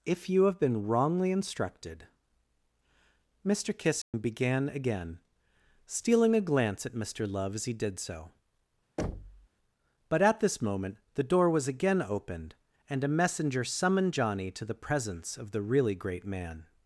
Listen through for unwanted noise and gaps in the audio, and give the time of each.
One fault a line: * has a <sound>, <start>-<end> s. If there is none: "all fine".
* has a dropout, 4.0-4.1 s
* has a thud, 9.0-9.5 s